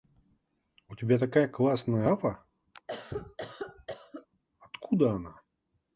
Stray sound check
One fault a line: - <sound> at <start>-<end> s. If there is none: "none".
- cough at 2.7-4.3 s